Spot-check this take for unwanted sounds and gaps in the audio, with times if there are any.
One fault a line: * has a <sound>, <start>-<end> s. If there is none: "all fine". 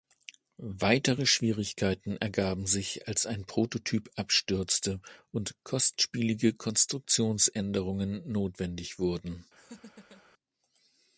* has a laugh, 9.6-10.2 s